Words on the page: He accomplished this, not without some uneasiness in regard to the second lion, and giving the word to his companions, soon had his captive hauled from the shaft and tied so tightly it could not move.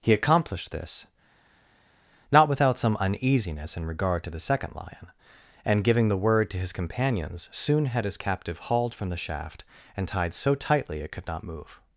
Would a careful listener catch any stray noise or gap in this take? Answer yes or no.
no